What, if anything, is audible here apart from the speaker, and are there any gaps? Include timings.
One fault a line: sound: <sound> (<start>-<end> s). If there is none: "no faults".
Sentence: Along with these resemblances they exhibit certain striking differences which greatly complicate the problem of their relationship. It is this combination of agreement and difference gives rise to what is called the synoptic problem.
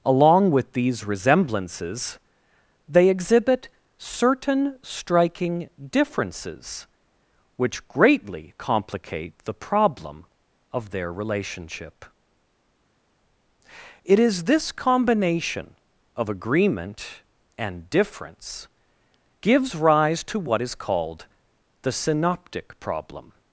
no faults